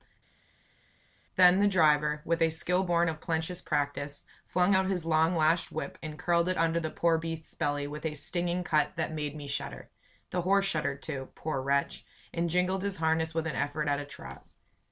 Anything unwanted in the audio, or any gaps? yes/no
no